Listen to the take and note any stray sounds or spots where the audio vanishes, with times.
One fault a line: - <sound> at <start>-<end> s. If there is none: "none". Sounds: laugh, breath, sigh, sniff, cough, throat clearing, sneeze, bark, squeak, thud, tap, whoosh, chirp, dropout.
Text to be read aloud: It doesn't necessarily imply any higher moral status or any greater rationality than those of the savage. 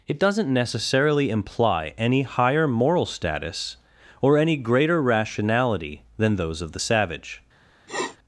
- sniff at 7.9-8.2 s